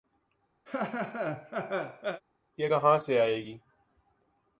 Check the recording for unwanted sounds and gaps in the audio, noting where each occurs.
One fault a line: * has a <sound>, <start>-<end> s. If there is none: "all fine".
* has a laugh, 0.7-2.2 s